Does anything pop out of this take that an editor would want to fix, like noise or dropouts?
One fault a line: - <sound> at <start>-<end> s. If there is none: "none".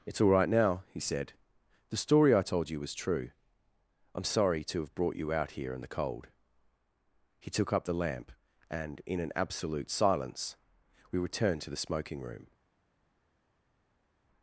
none